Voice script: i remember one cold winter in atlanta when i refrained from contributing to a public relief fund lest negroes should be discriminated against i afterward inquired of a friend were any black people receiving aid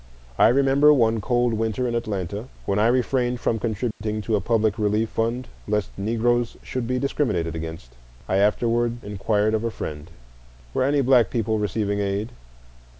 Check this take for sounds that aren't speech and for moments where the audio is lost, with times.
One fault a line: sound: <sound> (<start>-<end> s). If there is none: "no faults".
sound: dropout (3.9-4.0 s)